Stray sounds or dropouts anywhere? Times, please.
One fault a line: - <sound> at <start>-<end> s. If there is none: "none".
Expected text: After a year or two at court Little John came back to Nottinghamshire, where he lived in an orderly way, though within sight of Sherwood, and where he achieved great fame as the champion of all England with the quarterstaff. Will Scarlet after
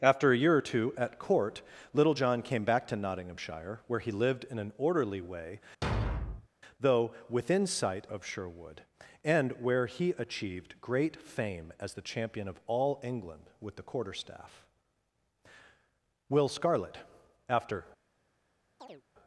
- thud at 5.8-6.5 s
- chirp at 18.8-19.0 s